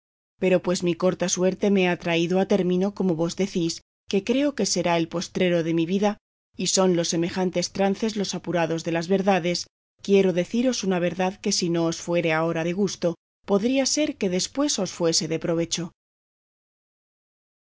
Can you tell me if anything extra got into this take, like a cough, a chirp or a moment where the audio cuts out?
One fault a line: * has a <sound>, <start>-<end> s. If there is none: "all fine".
all fine